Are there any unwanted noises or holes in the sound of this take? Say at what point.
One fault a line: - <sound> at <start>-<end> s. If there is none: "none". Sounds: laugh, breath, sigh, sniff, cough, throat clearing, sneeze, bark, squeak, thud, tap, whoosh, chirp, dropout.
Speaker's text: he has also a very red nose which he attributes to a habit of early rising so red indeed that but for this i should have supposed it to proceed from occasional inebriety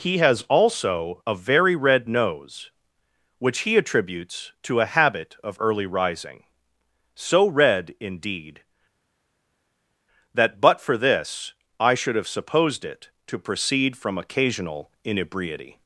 none